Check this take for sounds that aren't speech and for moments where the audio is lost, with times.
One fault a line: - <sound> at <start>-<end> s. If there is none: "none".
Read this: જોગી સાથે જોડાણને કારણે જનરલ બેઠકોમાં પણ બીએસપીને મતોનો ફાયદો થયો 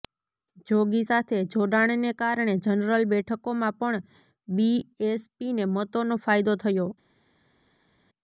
none